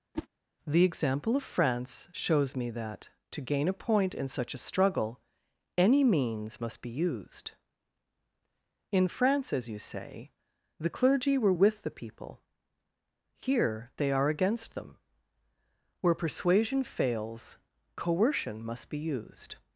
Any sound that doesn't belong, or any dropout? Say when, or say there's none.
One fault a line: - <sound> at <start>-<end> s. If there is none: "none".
- whoosh at 0.1-0.3 s